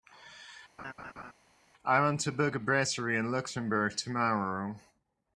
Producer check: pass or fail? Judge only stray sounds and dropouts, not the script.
fail